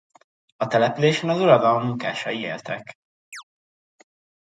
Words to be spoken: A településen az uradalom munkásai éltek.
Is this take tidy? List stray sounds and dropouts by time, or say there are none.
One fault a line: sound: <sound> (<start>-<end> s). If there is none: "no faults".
sound: chirp (3.3-3.4 s)